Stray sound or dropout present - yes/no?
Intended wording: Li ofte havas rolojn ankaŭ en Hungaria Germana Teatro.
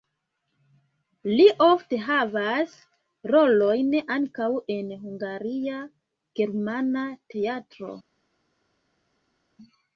no